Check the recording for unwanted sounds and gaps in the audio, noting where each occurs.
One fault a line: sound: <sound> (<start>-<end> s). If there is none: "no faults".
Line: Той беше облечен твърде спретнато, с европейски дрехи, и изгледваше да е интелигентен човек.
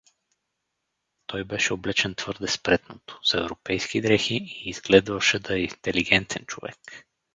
no faults